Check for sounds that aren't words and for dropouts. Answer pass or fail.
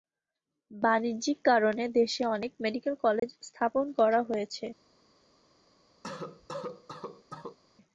fail